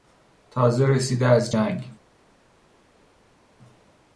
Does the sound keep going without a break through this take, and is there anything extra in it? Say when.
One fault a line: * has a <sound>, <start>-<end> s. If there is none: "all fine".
all fine